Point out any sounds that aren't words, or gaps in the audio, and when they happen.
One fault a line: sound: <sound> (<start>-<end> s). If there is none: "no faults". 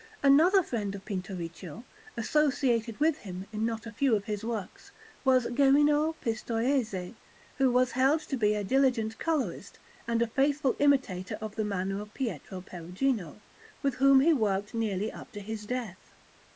no faults